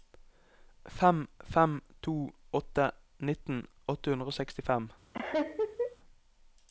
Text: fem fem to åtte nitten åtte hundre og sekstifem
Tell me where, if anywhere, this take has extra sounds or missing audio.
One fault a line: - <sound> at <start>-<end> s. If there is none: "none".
- laugh at 5.1-6.0 s